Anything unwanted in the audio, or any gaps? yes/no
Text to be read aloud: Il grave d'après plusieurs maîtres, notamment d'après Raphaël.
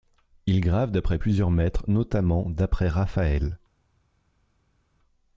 no